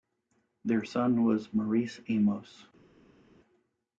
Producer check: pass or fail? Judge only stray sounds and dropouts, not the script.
pass